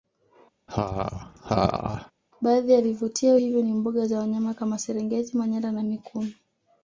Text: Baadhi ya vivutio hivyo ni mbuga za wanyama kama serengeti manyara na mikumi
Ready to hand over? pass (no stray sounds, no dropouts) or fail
fail